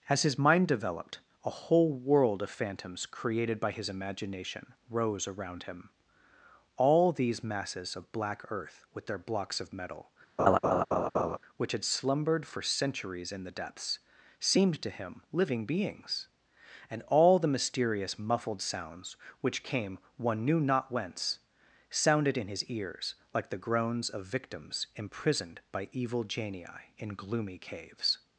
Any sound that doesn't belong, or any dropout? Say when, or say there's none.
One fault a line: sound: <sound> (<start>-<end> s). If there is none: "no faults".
sound: laugh (10.4-11.4 s)